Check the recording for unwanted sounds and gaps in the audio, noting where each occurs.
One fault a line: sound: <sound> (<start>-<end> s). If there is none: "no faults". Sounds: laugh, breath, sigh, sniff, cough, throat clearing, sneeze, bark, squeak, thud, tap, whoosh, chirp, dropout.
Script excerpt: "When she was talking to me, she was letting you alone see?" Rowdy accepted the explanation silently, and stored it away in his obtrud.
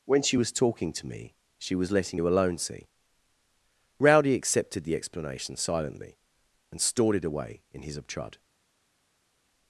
no faults